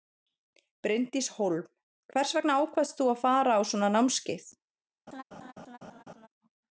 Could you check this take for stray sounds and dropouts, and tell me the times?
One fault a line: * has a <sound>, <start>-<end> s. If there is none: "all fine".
* has a laugh, 5.1-6.3 s